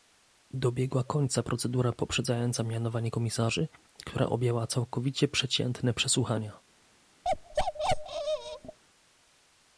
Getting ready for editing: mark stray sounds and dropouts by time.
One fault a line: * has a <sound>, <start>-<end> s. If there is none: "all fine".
* has a bark, 7.2-8.8 s